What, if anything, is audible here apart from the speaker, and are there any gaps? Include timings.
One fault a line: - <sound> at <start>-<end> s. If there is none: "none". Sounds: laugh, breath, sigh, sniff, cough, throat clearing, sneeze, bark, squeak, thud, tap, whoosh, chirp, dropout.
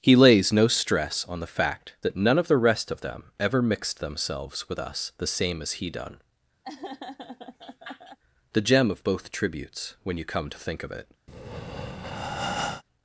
- laugh at 6.6-8.2 s
- breath at 11.3-12.8 s